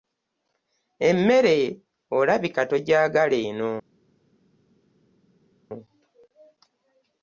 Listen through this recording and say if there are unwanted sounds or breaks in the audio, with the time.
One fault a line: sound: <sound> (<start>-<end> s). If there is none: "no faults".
no faults